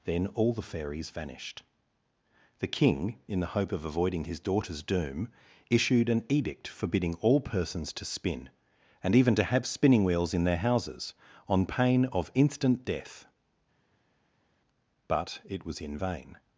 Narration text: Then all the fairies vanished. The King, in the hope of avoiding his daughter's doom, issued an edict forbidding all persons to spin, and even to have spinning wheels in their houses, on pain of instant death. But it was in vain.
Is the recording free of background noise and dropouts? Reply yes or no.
yes